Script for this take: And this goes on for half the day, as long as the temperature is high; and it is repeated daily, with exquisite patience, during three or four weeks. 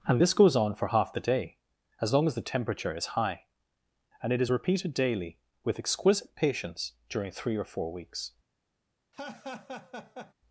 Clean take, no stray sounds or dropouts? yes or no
no